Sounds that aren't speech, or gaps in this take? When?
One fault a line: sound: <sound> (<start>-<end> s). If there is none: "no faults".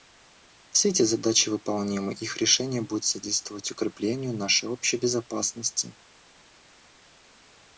no faults